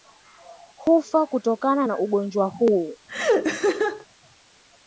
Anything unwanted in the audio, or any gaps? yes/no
yes